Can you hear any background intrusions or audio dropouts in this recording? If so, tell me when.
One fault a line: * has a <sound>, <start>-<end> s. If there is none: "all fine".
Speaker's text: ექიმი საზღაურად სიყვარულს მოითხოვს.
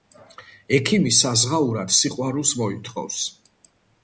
all fine